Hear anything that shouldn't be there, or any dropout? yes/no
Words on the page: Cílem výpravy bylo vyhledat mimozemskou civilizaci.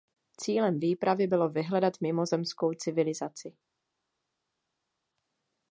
no